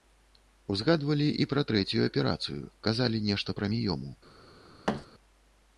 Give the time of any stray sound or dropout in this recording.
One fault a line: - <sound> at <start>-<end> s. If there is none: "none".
- thud at 4.9-5.1 s